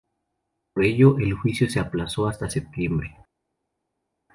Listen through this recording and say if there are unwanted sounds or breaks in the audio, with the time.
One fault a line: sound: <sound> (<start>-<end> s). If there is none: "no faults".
no faults